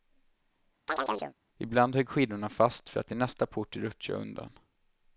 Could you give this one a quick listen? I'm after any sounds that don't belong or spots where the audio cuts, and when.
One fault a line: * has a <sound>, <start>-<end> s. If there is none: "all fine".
* has a chirp, 0.9-1.4 s